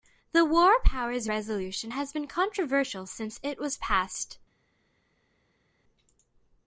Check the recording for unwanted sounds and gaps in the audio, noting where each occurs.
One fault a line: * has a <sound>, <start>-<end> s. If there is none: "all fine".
all fine